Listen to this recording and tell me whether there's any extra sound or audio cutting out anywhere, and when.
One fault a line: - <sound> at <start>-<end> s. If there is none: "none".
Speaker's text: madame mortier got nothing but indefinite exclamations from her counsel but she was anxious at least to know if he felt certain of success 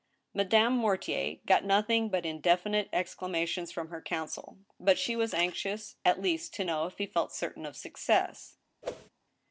- whoosh at 8.8-9.1 s